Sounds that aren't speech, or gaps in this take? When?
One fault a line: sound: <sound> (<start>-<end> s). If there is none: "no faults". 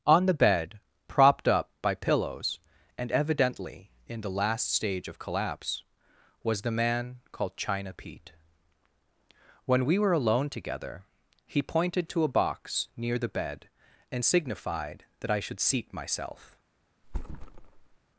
sound: thud (17.0-18.0 s)